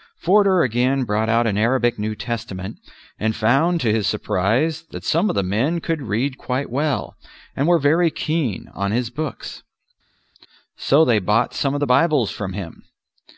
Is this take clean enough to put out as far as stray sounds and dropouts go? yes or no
yes